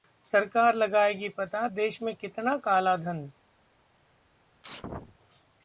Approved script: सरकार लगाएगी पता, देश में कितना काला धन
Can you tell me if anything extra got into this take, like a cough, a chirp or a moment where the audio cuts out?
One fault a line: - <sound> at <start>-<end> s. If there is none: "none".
- sneeze at 4.6-5.2 s